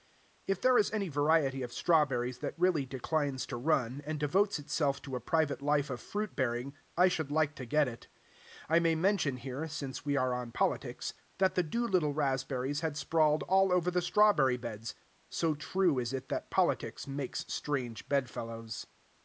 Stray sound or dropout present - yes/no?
no